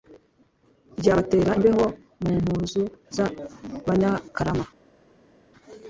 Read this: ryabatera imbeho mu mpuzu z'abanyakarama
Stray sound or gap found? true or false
false